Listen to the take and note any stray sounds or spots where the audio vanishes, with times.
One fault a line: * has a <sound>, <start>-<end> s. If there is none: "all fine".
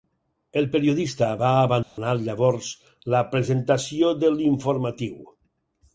* has a dropout, 1.8-2.0 s